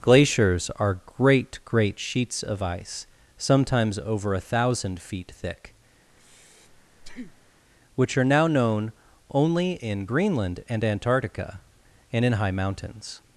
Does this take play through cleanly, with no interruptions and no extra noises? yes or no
no